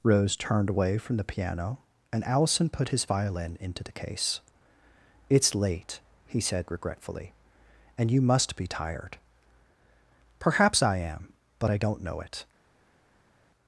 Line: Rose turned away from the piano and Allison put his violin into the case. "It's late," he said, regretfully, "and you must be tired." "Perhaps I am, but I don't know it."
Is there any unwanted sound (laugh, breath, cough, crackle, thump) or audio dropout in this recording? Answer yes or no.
no